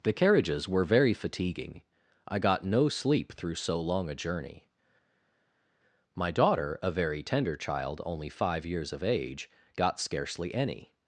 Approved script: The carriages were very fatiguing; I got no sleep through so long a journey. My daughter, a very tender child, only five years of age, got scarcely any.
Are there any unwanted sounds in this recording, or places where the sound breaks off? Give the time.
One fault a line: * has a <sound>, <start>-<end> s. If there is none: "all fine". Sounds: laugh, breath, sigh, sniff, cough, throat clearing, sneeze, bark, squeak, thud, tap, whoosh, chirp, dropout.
all fine